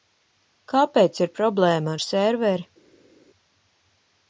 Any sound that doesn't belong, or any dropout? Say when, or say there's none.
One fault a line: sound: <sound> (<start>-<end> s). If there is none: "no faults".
no faults